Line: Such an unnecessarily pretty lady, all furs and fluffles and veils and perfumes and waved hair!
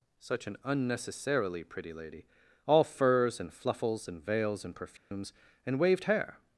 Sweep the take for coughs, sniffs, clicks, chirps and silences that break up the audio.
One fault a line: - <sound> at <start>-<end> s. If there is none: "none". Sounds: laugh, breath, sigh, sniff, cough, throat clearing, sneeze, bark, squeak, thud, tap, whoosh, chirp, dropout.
- dropout at 5.0-5.1 s